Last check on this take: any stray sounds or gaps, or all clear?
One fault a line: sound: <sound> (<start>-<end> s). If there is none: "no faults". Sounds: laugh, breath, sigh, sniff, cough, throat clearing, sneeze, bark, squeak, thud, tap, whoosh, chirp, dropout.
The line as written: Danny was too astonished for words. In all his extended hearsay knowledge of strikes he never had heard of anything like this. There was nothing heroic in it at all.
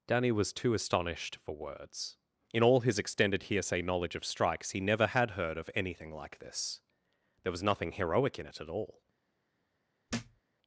sound: thud (10.1-10.4 s)